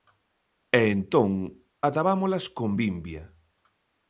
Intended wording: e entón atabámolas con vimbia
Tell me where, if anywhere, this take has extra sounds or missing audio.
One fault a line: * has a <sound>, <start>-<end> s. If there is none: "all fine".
all fine